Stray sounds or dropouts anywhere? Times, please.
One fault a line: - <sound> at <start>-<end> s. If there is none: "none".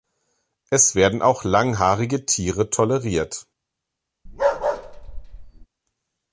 - bark at 4.3-5.7 s